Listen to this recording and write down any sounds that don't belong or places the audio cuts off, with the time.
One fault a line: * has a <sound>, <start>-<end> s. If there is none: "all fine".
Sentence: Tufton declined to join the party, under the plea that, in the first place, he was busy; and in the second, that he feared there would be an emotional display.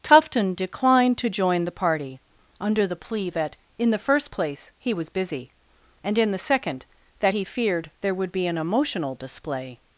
all fine